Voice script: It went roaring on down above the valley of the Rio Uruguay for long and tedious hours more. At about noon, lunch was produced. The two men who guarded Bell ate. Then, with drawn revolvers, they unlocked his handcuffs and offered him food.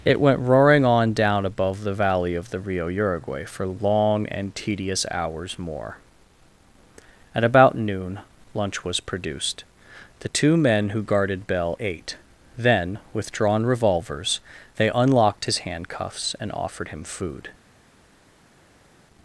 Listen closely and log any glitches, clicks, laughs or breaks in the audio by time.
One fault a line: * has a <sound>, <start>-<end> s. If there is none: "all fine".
all fine